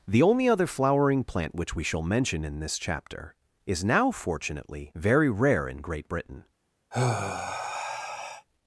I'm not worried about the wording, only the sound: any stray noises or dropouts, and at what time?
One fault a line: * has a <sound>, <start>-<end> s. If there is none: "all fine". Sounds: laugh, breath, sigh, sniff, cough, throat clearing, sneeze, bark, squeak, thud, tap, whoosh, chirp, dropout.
* has a sigh, 6.9-8.5 s